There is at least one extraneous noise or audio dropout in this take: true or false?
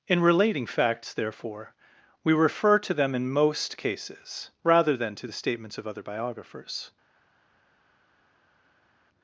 false